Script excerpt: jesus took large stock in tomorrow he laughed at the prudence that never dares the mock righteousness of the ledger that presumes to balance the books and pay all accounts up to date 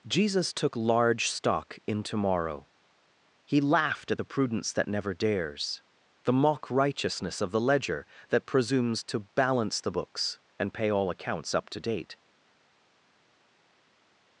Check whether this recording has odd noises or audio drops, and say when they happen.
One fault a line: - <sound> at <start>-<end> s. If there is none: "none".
none